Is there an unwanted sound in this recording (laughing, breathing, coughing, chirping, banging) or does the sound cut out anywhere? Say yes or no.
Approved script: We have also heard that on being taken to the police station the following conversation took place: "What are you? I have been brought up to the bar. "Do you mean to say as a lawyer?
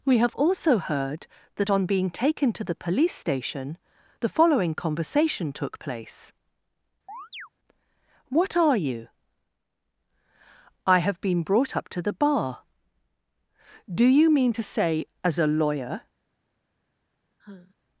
yes